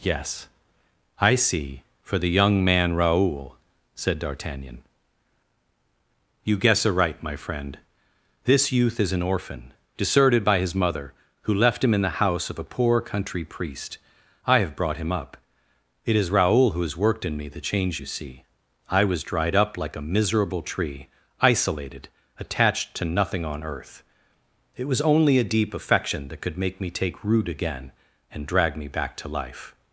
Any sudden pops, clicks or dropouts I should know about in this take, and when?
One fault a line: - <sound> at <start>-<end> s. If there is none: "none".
none